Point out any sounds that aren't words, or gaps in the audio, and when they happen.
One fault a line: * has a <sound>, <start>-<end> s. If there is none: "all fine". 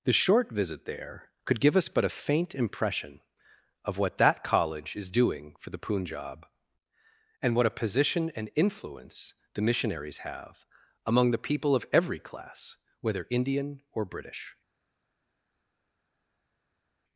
all fine